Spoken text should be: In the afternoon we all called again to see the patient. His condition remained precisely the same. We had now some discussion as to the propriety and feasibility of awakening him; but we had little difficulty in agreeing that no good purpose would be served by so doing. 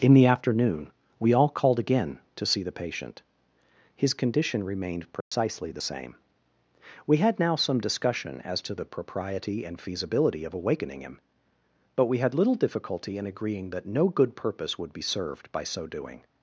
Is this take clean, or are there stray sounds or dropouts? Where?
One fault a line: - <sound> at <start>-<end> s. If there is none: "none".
- dropout at 5.2-5.3 s